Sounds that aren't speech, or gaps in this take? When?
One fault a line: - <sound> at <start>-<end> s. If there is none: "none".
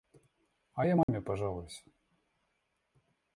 - dropout at 1.0-1.1 s